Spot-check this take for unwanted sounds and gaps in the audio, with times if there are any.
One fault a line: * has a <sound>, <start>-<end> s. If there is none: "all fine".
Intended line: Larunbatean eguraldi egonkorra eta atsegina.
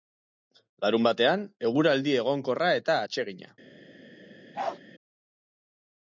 * has a bark, 4.5-4.8 s